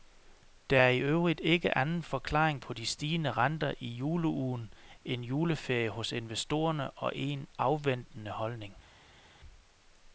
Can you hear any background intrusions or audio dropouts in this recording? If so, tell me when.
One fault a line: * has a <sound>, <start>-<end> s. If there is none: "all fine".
all fine